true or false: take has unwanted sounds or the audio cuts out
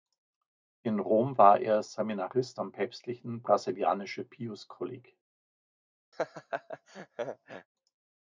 true